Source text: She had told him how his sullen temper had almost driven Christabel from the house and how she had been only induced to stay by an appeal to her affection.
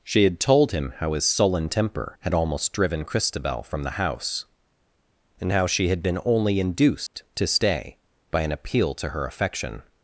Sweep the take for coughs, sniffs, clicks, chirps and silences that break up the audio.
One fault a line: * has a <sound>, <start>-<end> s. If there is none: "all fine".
* has a dropout, 7.1-7.1 s